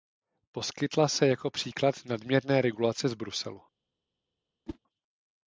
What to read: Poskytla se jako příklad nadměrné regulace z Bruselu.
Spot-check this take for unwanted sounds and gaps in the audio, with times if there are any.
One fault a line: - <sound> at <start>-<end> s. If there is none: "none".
- whoosh at 4.7-4.8 s